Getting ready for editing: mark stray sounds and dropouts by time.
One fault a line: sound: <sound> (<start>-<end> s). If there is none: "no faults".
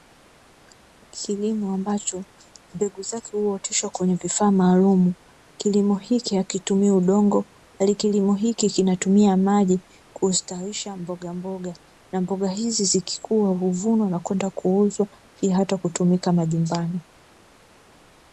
no faults